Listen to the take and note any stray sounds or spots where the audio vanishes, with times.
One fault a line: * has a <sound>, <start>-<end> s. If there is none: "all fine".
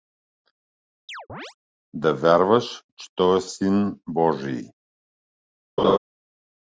* has a chirp, 1.1-1.5 s
* has a laugh, 5.8-6.0 s